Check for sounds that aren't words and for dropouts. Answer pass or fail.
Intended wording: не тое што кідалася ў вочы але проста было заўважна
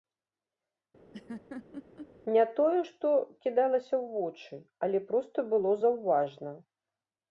fail